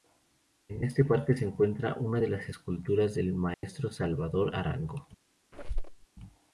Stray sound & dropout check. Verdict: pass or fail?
fail